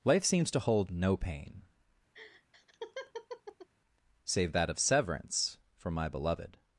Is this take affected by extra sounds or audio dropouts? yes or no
yes